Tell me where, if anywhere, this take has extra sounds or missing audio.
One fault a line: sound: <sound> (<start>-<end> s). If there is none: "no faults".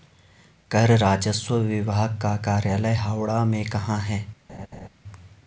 sound: laugh (4.5-4.9 s)